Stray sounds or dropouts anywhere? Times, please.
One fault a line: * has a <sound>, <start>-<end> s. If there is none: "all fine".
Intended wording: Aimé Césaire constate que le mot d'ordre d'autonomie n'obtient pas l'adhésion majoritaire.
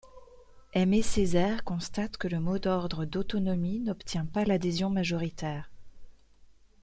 all fine